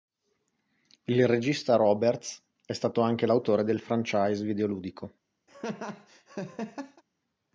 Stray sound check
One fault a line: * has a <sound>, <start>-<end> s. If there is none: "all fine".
* has a laugh, 5.5-7.0 s